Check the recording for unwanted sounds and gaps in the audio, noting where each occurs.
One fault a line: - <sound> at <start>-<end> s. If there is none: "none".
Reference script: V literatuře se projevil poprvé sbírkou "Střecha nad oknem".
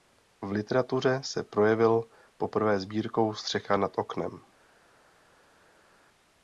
none